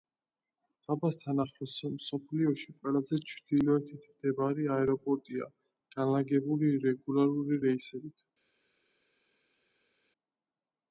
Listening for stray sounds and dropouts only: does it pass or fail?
pass